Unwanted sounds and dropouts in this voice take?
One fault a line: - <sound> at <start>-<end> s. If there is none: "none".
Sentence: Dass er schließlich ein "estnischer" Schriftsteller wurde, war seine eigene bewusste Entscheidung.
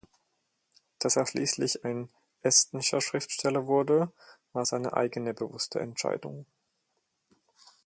none